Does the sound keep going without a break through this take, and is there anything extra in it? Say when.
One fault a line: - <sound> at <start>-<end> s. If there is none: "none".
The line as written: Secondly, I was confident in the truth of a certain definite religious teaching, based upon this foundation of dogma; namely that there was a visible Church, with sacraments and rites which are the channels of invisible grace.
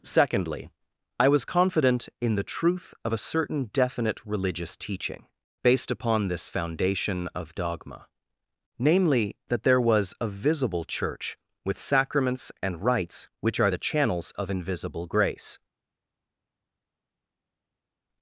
none